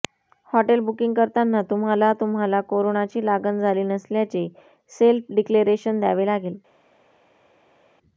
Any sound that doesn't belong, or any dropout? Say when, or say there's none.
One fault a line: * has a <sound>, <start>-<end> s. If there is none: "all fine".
all fine